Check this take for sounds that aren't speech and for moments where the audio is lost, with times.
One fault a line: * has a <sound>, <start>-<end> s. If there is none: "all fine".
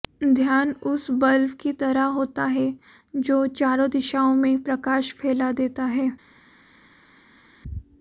all fine